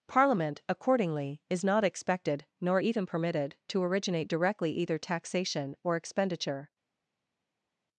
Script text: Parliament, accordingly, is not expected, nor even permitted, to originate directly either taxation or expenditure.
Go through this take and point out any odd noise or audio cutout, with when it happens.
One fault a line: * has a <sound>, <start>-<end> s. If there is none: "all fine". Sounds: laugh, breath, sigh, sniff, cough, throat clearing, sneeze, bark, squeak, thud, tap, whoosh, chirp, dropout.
all fine